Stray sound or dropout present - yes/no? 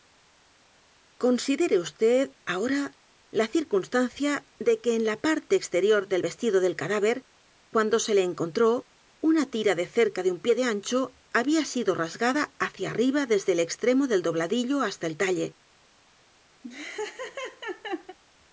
yes